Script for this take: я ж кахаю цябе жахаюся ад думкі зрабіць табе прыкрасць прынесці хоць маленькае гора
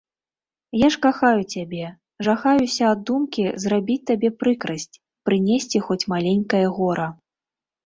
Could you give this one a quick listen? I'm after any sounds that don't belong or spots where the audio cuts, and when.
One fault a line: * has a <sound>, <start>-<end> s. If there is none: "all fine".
all fine